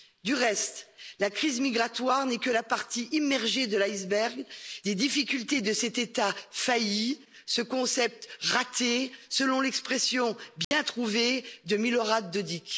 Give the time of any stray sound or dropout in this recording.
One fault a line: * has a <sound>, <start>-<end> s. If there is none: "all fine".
* has a dropout, 10.6-10.7 s